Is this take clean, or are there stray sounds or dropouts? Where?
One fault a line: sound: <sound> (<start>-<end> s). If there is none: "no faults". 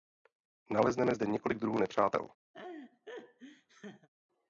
sound: laugh (2.5-4.1 s)